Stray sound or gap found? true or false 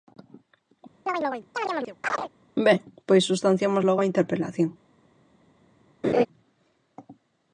true